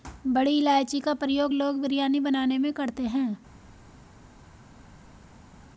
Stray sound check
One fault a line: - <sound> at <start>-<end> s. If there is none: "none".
none